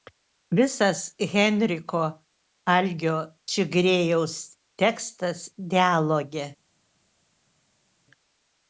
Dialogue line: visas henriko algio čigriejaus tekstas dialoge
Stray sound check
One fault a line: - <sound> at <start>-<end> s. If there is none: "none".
none